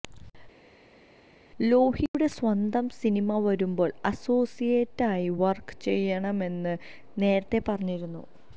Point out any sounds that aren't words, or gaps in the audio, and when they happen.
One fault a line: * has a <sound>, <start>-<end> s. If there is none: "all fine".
all fine